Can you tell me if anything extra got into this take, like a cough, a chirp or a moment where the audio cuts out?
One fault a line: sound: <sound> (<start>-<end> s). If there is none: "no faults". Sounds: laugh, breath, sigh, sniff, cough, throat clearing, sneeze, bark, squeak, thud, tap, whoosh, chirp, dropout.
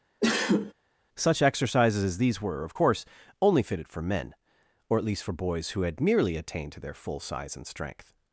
sound: sneeze (0.2-0.7 s)